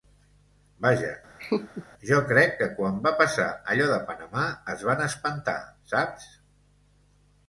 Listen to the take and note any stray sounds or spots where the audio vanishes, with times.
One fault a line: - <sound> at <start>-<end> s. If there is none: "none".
- laugh at 1.4-1.9 s